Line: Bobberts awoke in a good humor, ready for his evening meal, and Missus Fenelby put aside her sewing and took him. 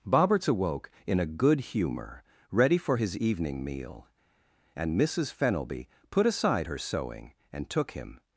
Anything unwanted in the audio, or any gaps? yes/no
no